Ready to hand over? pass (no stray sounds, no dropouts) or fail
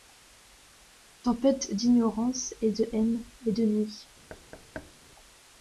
fail